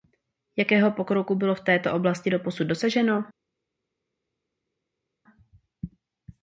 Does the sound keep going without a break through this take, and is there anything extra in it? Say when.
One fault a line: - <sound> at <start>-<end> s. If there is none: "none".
none